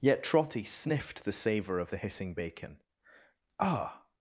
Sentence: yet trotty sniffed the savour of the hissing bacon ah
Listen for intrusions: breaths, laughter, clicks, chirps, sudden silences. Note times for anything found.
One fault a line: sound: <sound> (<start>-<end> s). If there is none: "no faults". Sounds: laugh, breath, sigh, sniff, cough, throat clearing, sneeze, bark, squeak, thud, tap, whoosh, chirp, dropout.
no faults